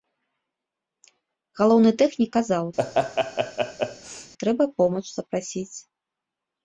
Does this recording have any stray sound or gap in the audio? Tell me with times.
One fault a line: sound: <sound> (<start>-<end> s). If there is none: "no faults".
sound: laugh (2.8-4.3 s)